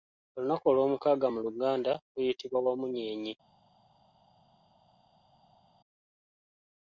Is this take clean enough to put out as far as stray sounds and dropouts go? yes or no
yes